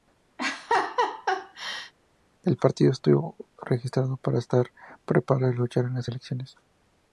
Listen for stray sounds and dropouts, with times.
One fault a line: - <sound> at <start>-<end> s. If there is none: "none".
- laugh at 0.4-1.9 s